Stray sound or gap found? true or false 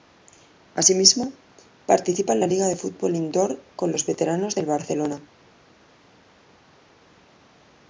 false